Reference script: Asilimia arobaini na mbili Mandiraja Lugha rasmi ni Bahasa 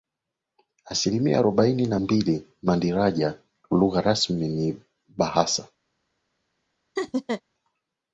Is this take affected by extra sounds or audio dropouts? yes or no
yes